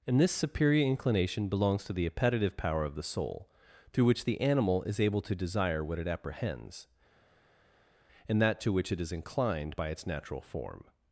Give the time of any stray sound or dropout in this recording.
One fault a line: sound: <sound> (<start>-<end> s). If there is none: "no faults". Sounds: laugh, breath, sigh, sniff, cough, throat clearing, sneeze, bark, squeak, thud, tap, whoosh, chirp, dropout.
no faults